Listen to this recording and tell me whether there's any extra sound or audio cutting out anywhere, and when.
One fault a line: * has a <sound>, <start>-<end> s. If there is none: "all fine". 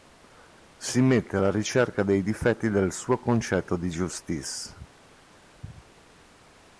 all fine